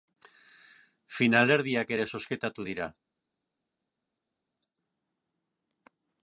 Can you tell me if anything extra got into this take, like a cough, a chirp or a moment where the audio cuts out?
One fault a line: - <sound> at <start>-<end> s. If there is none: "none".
none